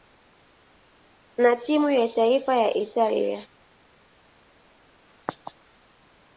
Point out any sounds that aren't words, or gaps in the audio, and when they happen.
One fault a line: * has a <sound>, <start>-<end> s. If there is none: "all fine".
all fine